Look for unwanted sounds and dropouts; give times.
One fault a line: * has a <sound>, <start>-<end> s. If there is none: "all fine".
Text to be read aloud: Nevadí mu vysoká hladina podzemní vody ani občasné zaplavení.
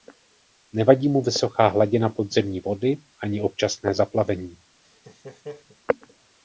* has a laugh, 4.8-5.8 s